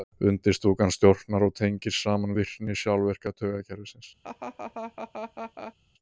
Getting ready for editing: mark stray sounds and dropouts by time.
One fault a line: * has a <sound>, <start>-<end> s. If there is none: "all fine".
* has a laugh, 4.2-5.7 s